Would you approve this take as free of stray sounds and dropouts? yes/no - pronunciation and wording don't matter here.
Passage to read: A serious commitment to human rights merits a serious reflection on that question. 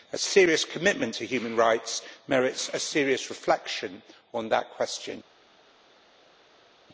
yes